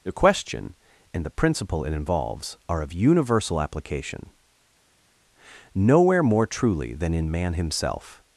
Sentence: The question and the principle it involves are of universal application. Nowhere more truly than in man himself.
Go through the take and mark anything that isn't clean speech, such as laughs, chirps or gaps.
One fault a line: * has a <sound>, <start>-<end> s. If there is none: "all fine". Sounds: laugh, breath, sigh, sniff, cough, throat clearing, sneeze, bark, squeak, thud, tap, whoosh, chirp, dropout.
all fine